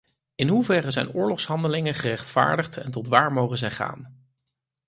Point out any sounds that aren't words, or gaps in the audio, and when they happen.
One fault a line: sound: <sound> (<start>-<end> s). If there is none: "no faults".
no faults